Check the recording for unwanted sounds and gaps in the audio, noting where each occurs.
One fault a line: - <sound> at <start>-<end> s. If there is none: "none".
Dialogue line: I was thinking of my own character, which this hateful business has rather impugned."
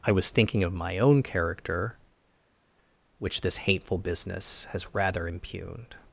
none